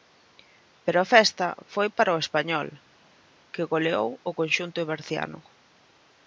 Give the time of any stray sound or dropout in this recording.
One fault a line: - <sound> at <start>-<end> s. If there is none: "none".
none